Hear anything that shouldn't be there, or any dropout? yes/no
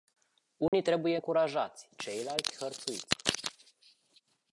yes